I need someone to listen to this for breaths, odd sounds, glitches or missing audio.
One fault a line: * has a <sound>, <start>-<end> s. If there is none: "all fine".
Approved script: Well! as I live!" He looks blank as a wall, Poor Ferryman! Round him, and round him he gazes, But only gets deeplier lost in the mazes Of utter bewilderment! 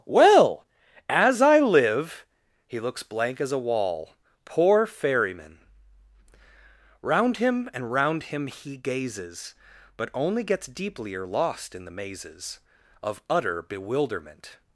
all fine